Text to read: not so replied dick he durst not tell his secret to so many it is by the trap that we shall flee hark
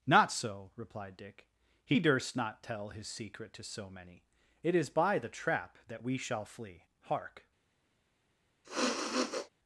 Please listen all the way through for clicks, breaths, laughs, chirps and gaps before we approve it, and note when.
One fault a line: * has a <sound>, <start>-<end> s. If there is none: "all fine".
* has a sniff, 8.6-9.5 s